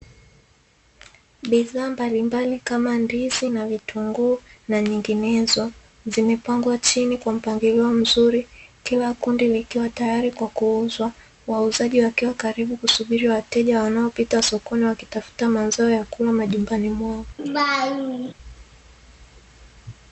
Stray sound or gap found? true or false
true